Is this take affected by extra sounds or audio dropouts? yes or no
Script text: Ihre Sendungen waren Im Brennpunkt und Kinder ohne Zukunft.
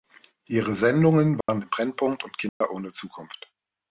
yes